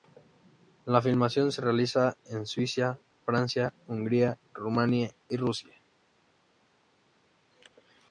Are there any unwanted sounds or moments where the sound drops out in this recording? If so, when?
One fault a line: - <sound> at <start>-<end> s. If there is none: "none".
none